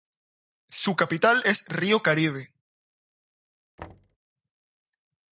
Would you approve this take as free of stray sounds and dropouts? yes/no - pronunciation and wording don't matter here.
no